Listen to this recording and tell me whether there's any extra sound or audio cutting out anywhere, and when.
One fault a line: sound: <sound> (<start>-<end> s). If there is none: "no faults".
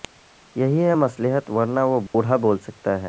sound: dropout (2.1-2.1 s)